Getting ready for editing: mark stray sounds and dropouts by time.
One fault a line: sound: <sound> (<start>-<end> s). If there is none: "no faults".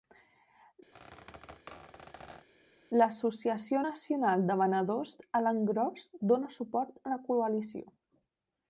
sound: squeak (0.9-2.5 s)